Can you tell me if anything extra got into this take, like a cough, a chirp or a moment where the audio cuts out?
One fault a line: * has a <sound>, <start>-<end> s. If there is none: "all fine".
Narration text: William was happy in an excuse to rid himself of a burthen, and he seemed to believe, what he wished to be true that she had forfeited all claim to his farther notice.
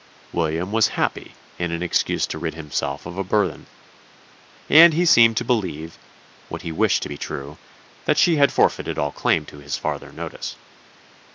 all fine